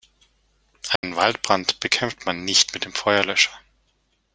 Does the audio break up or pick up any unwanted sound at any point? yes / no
yes